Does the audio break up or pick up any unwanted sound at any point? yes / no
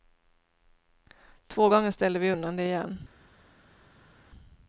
no